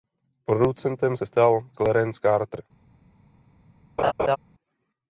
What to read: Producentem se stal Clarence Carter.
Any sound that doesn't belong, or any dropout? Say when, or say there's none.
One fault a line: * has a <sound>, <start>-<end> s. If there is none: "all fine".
* has a laugh, 4.0-4.4 s